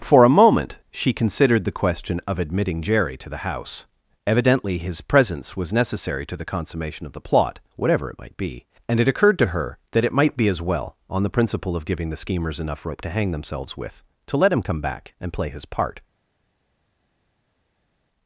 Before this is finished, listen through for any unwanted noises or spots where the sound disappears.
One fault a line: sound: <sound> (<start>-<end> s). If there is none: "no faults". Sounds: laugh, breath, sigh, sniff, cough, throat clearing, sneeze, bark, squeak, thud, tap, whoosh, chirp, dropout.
no faults